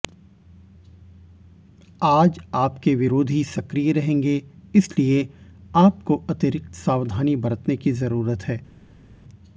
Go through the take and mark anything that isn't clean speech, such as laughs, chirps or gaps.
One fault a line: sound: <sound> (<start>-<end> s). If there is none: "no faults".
no faults